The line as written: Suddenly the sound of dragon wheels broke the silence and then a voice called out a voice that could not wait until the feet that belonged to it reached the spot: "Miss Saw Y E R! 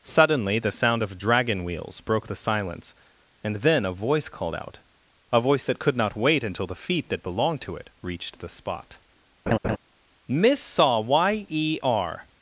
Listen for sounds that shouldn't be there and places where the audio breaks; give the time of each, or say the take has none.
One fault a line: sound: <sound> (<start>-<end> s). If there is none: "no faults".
sound: laugh (9.5-9.8 s)